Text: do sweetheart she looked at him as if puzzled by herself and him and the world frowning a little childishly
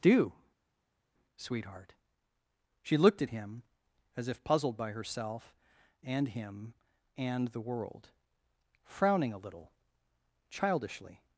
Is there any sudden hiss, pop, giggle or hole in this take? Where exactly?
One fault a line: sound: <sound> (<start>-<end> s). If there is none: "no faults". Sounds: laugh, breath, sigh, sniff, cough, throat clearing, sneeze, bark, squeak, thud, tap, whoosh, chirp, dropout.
no faults